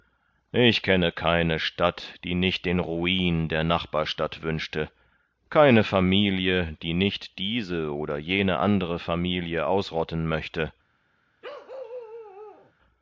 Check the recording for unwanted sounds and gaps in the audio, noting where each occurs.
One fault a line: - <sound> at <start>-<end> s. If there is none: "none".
- bark at 11.4-12.7 s